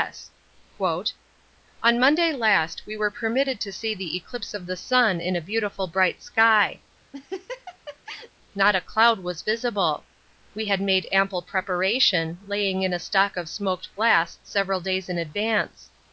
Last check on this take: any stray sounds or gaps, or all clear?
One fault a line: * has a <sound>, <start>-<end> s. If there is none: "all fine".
* has a laugh, 7.1-8.3 s